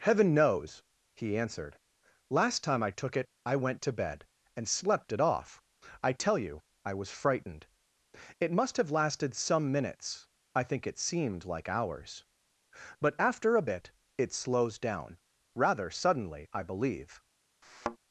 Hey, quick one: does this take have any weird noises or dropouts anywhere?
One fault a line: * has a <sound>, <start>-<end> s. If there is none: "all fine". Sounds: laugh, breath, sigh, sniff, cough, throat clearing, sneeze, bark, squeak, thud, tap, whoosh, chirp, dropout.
* has a thud, 17.6-18.0 s